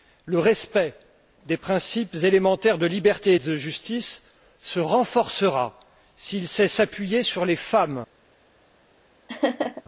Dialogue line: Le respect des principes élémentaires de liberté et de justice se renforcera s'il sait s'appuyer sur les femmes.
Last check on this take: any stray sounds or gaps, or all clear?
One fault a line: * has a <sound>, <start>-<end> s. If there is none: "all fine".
* has a laugh, 9.3-9.8 s